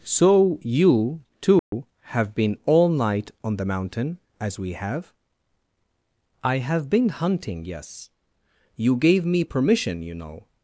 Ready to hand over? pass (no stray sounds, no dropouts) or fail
fail